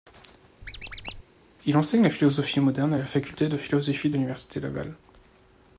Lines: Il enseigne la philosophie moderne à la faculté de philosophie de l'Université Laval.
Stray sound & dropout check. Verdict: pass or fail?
fail